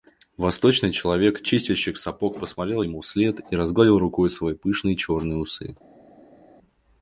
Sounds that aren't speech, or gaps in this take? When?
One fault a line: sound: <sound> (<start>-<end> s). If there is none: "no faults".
no faults